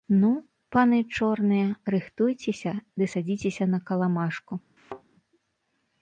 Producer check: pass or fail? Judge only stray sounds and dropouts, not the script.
fail